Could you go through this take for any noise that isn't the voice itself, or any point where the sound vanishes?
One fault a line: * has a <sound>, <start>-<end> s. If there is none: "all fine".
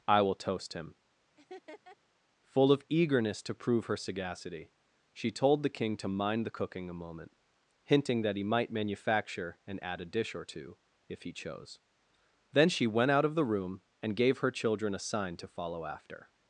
* has a laugh, 1.4-2.0 s